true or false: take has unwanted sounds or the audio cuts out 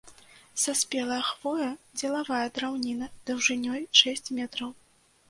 false